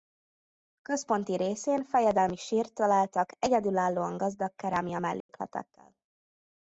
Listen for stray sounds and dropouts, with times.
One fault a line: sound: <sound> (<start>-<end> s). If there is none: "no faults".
sound: dropout (5.2-5.3 s)